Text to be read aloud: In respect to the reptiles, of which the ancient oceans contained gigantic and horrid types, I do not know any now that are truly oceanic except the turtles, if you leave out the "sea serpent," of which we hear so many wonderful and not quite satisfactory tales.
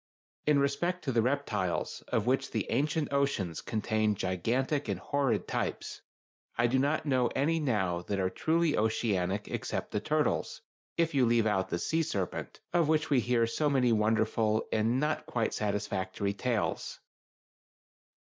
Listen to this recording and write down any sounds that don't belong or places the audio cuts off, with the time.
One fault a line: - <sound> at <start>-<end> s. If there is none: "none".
none